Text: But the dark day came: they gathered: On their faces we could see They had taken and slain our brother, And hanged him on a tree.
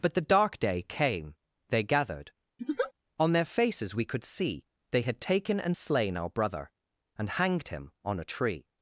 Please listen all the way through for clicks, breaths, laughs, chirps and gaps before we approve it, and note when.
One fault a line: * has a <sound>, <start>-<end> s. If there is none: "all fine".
* has a laugh, 2.6-2.9 s